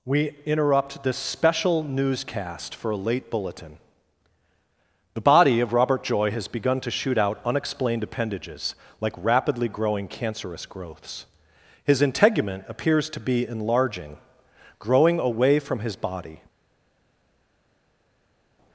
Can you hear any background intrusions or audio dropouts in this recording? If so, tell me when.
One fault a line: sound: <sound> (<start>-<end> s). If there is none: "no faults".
no faults